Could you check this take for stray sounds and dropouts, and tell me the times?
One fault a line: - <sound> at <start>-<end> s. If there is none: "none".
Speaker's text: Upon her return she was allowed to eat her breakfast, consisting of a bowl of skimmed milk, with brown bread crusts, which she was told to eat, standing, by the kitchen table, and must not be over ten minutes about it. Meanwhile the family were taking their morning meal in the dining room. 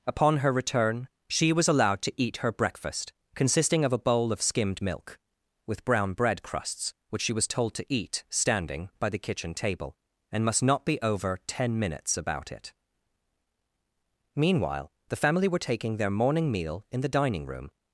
none